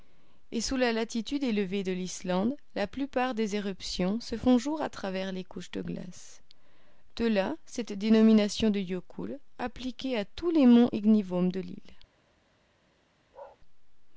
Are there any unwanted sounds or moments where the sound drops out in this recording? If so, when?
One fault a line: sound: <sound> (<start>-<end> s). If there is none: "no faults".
sound: bark (13.3-13.6 s)